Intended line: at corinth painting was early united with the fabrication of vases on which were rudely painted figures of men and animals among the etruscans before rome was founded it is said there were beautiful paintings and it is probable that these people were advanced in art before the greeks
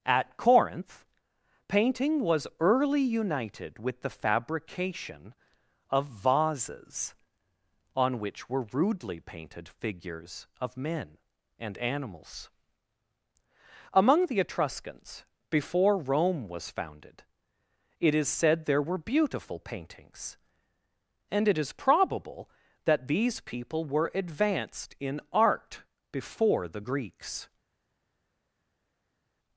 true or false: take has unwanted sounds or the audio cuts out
false